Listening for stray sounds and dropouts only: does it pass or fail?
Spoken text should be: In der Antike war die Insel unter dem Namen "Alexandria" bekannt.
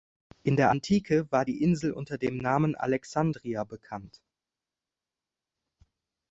pass